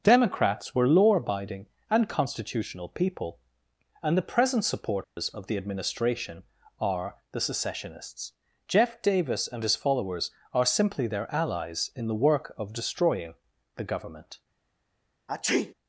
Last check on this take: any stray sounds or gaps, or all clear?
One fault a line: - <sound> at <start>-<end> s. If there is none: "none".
- dropout at 5.0-5.2 s
- sneeze at 15.3-15.7 s